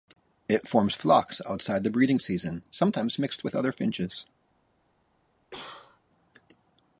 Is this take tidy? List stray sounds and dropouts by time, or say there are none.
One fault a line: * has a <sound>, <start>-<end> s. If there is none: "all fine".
* has a cough, 5.5-6.0 s